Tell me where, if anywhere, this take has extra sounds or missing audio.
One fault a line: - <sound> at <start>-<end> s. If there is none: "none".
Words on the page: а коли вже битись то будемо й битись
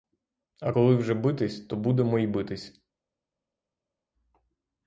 none